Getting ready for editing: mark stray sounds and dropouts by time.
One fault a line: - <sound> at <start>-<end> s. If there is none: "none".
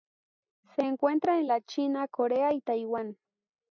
none